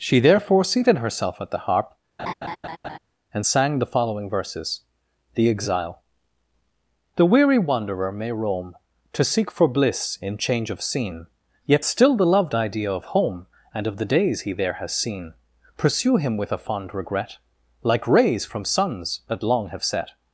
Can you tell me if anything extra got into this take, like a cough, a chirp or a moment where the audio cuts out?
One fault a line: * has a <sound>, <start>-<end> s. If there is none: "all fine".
* has a laugh, 2.2-3.0 s